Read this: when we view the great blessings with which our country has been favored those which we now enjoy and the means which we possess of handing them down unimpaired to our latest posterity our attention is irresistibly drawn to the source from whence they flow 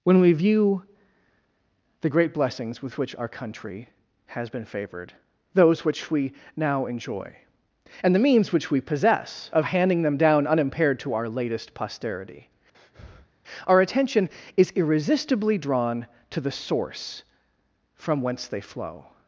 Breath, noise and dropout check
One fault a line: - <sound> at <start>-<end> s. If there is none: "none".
- breath at 12.7-13.3 s